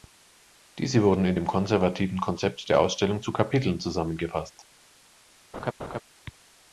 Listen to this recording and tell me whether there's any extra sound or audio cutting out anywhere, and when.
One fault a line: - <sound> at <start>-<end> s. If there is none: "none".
- laugh at 5.5-6.0 s